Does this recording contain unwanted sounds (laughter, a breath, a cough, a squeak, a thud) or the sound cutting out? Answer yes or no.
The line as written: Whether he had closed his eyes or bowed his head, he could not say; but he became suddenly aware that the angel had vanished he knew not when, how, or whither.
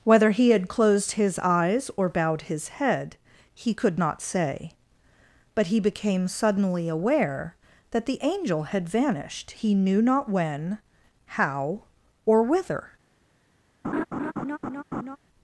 yes